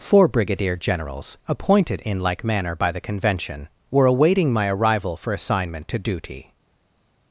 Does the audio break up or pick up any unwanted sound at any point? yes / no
no